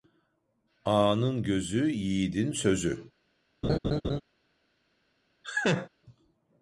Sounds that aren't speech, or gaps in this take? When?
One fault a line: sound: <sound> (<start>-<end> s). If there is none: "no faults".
sound: laugh (3.6-4.2 s)
sound: laugh (5.4-5.9 s)